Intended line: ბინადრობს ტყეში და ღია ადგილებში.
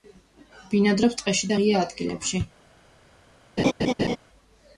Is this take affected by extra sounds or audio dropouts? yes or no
yes